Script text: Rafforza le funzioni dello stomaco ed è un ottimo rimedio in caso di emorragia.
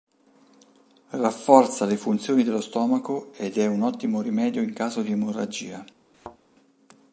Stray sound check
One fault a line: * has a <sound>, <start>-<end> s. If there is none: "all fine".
* has a thud, 6.1-6.4 s